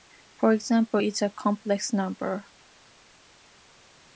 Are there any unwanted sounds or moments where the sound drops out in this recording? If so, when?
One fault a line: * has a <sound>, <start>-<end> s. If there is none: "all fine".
all fine